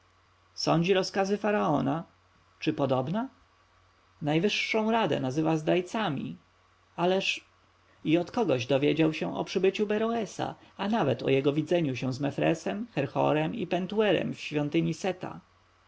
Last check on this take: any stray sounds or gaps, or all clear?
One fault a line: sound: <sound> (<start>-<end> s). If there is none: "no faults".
no faults